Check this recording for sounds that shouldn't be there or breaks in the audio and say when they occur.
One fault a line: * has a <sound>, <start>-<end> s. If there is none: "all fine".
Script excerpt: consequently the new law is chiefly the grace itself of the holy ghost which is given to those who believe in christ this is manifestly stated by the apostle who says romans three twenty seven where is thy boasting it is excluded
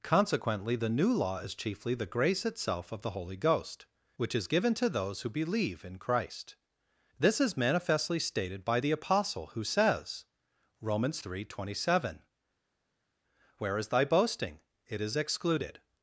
all fine